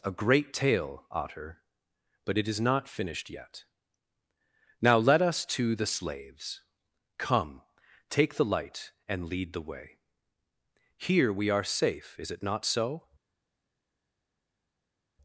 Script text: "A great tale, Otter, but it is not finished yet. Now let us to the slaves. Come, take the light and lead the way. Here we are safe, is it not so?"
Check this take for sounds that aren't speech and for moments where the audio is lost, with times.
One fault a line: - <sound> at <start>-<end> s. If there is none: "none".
none